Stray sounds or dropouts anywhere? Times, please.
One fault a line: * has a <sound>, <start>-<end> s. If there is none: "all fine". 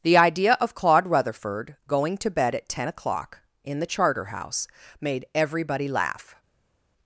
all fine